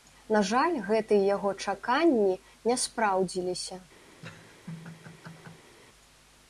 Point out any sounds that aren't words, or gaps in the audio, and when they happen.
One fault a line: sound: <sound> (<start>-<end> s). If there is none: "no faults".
sound: laugh (4.2-5.7 s)